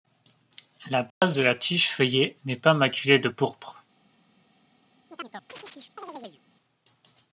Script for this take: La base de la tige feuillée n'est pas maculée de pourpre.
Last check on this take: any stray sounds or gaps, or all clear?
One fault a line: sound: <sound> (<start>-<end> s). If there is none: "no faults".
sound: dropout (1.1-1.2 s)
sound: chirp (5.1-6.4 s)